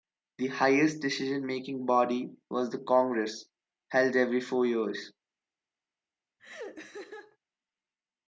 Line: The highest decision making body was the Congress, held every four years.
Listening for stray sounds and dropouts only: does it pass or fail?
fail